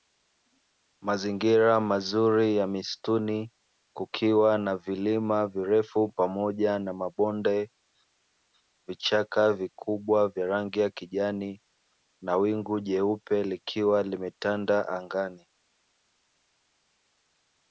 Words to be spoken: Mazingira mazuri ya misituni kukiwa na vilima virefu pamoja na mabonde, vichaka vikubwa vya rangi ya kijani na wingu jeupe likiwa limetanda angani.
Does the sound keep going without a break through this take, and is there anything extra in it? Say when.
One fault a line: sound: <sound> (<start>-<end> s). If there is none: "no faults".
no faults